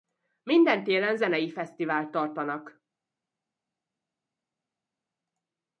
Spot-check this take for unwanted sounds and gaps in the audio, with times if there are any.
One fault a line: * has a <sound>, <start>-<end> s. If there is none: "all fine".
all fine